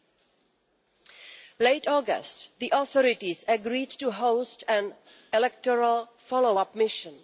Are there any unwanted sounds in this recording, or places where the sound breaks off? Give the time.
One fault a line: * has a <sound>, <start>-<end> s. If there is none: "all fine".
all fine